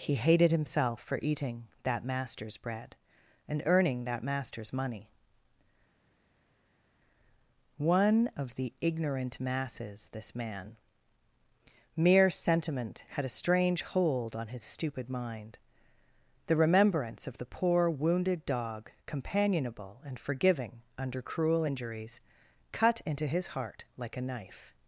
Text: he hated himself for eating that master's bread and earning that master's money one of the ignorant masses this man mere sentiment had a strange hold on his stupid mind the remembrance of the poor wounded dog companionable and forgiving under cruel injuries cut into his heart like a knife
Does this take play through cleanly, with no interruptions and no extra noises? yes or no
yes